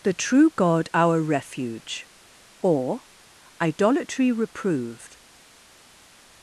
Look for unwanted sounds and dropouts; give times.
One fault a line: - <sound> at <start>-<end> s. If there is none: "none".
none